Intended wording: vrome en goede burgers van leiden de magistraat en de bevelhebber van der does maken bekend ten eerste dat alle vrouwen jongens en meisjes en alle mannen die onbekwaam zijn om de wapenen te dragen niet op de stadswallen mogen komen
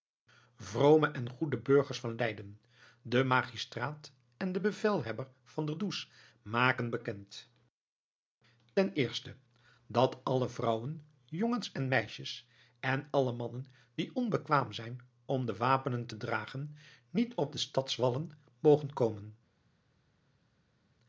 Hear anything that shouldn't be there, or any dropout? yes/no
no